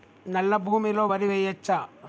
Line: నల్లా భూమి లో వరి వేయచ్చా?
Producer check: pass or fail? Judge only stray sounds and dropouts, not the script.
pass